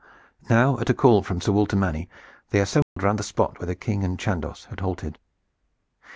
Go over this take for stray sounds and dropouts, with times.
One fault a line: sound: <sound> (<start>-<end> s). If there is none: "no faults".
sound: dropout (2.8-3.0 s)